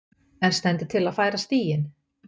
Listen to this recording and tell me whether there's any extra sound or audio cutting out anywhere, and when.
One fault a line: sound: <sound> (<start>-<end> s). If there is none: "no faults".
no faults